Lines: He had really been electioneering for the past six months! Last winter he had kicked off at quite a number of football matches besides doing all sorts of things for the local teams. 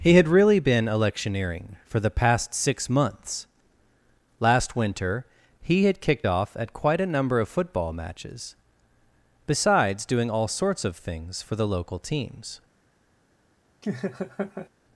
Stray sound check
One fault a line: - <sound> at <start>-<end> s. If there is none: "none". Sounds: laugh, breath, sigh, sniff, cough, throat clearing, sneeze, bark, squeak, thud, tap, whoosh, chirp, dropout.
- laugh at 13.8-14.7 s